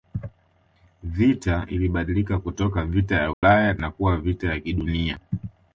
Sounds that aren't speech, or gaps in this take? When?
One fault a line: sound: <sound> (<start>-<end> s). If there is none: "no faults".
sound: dropout (3.3-3.4 s)